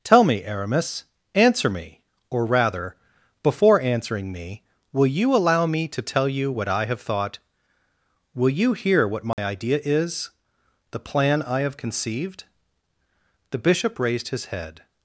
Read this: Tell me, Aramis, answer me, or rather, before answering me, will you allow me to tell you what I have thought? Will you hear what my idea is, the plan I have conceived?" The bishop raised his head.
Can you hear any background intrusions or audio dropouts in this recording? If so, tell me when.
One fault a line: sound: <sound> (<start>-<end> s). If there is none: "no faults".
sound: dropout (9.3-9.4 s)